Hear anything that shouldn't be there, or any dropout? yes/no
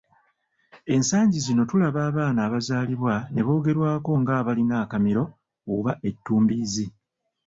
no